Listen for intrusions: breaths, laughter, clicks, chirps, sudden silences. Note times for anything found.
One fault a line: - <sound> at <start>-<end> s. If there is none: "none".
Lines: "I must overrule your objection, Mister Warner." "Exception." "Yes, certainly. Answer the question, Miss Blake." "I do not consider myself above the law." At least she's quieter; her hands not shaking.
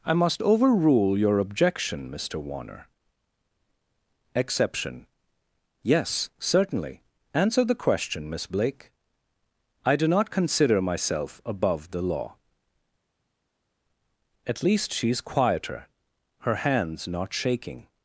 none